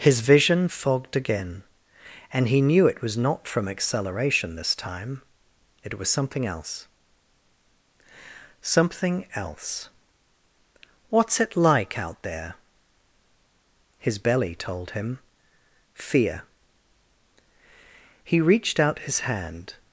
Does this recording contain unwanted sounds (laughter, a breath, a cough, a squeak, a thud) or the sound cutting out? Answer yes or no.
no